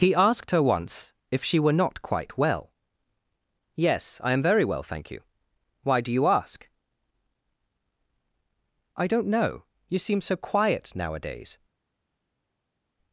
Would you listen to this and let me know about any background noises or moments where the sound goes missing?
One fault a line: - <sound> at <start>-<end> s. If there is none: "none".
none